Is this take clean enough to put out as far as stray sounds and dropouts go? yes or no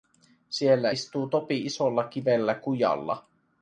yes